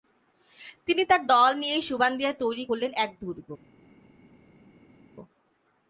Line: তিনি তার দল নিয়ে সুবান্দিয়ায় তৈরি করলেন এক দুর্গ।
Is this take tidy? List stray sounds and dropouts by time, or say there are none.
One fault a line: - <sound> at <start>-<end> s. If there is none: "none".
none